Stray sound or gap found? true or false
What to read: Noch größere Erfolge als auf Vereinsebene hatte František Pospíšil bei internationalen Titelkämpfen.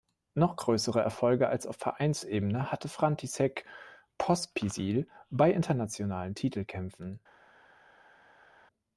false